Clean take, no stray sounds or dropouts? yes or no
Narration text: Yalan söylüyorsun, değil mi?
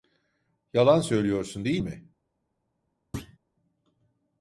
no